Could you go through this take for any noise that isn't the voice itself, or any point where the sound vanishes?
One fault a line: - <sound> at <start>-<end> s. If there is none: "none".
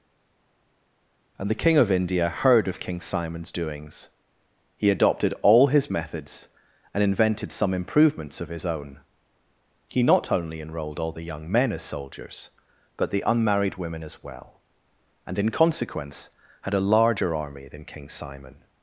none